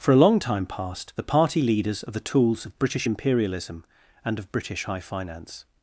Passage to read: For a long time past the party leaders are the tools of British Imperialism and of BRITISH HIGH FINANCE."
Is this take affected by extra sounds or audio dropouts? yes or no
no